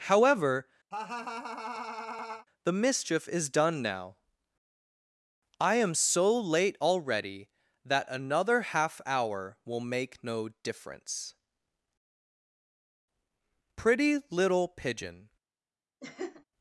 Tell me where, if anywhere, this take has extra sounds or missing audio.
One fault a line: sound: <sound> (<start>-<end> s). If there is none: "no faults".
sound: laugh (0.9-2.5 s)
sound: laugh (16.0-16.4 s)